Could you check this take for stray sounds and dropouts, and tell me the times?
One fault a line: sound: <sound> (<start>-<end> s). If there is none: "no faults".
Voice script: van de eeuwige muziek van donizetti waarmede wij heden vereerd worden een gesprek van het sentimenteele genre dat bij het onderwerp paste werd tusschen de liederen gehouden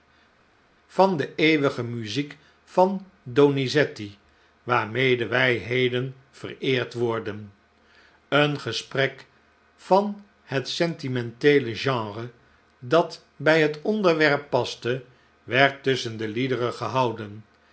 no faults